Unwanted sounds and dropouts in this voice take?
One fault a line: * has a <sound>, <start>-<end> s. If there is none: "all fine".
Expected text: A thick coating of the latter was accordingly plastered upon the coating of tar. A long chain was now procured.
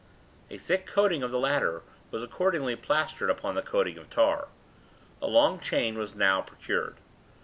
all fine